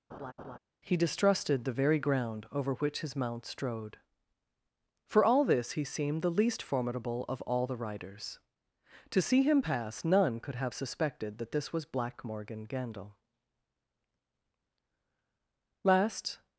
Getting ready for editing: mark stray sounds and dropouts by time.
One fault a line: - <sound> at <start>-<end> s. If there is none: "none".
- laugh at 0.1-0.6 s